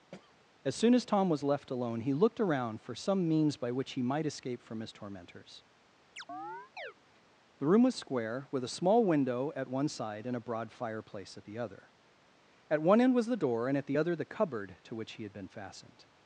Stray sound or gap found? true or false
true